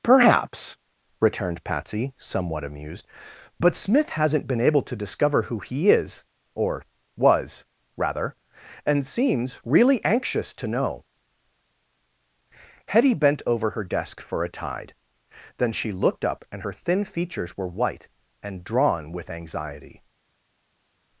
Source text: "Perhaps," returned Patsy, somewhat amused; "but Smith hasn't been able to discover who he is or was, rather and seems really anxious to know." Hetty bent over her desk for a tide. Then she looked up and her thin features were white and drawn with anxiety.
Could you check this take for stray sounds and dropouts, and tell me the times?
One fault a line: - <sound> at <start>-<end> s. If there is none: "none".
none